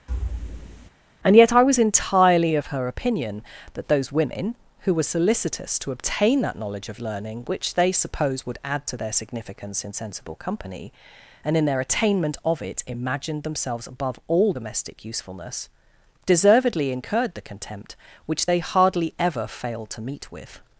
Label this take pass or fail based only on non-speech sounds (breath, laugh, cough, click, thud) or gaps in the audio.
fail